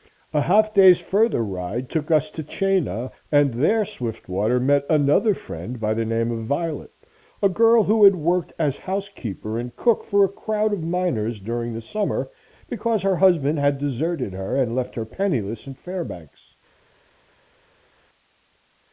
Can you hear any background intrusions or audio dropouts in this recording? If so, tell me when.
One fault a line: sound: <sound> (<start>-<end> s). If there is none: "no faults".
no faults